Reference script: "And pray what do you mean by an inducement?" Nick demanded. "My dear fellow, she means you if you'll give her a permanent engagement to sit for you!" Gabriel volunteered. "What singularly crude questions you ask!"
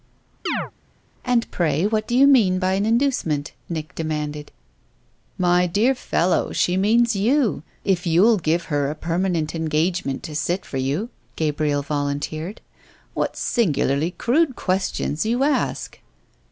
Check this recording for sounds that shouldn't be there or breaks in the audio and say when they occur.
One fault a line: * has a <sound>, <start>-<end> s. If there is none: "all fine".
* has a chirp, 0.5-0.7 s